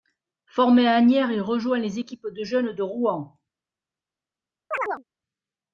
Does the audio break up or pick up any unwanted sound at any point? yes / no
yes